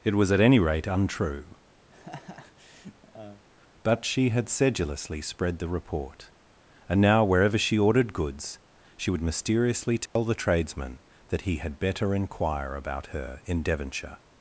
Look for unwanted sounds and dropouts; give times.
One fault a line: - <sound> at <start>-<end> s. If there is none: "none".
- laugh at 1.9-3.4 s
- dropout at 10.1-10.2 s